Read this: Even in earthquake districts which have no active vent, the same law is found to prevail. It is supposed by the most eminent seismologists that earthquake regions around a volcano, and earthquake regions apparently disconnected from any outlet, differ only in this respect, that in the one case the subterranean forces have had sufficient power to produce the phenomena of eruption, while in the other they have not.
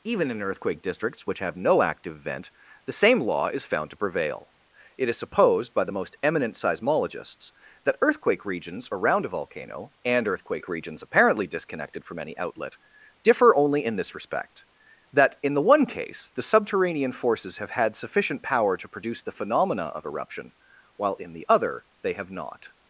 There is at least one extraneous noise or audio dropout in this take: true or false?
false